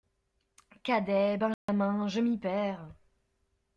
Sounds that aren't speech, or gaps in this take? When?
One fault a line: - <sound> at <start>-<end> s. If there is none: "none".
- dropout at 1.5-1.7 s